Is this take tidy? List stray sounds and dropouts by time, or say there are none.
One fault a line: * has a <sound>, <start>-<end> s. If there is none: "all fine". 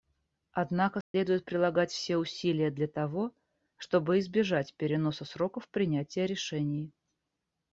* has a dropout, 1.0-1.1 s